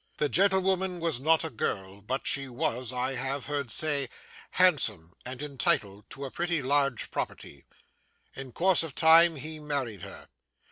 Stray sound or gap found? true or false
false